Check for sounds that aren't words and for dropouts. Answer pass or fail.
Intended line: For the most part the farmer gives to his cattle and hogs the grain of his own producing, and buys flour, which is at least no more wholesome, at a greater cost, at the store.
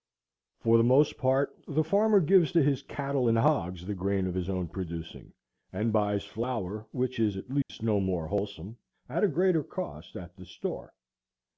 fail